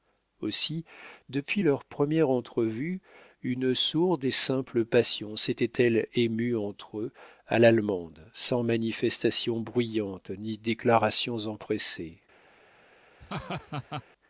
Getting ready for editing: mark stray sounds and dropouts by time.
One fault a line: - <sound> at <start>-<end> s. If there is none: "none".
- laugh at 13.2-14.0 s